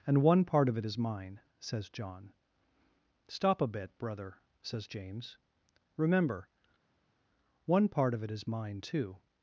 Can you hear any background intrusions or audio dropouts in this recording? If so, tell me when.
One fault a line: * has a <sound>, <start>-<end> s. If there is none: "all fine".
all fine